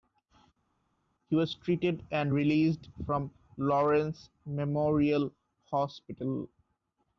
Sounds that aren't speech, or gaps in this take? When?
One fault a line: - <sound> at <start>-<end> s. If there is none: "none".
none